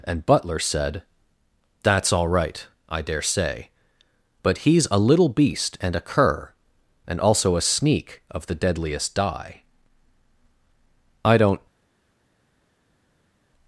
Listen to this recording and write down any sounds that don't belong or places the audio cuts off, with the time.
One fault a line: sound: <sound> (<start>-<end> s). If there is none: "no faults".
no faults